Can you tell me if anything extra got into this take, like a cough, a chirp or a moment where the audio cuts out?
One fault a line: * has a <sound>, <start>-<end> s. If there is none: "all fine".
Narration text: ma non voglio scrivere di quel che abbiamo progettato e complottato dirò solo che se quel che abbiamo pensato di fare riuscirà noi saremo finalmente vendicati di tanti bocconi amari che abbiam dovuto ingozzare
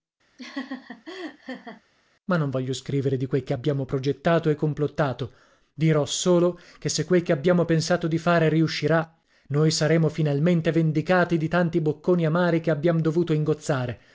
* has a laugh, 0.4-1.8 s